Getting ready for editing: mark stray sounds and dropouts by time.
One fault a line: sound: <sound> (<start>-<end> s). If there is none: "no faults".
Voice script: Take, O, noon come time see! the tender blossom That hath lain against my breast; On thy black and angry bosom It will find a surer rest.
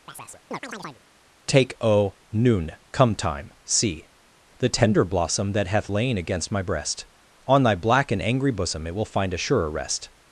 sound: chirp (0.1-1.0 s)